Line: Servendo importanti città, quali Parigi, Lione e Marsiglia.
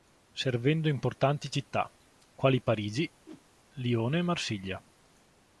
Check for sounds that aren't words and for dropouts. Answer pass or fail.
fail